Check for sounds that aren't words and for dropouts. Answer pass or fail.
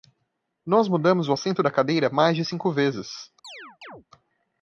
fail